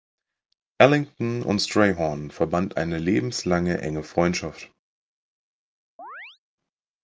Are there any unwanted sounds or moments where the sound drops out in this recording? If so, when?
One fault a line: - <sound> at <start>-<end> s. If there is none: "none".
- chirp at 6.0-6.4 s